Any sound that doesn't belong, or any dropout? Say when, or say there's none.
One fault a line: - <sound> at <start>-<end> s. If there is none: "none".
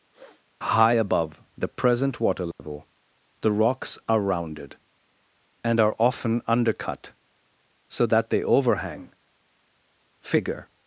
- sniff at 0.1-0.5 s
- dropout at 2.5-2.6 s